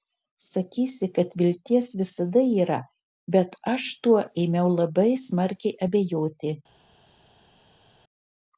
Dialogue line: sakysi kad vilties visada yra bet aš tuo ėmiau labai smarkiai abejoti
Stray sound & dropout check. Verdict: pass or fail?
pass